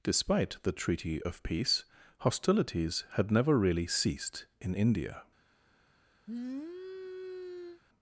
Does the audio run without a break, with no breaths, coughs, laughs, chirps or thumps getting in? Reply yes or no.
no